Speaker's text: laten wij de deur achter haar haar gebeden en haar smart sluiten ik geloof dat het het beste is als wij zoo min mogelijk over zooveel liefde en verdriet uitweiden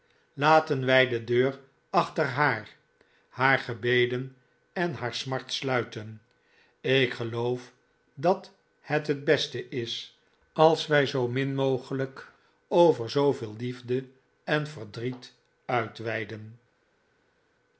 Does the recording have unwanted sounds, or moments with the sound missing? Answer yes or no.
no